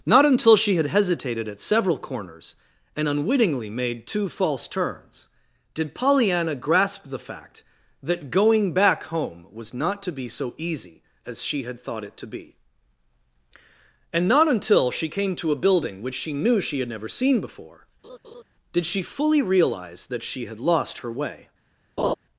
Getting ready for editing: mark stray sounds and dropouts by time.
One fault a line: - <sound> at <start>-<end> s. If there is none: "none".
- laugh at 18.0-18.4 s
- laugh at 22.0-22.1 s